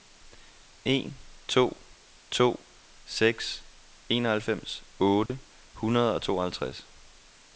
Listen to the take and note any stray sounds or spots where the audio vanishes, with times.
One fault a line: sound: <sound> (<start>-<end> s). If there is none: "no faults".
sound: dropout (5.3-5.3 s)